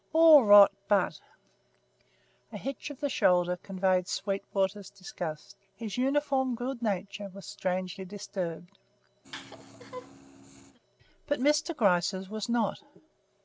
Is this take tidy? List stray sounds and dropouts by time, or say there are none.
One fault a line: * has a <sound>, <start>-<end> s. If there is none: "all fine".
* has a laugh, 9.2-10.8 s